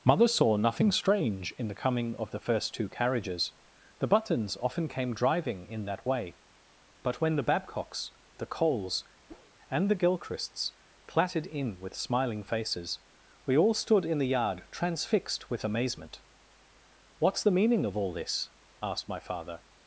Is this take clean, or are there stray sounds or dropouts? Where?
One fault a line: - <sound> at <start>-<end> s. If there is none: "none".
- whoosh at 9.3-9.5 s